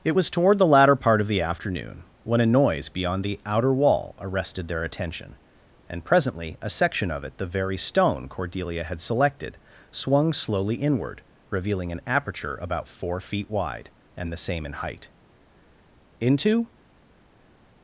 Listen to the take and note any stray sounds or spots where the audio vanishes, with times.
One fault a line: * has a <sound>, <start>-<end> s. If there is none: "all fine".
all fine